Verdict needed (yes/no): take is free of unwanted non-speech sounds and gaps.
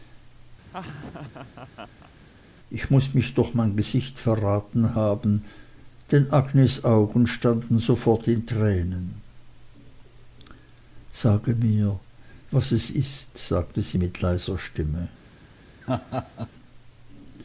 no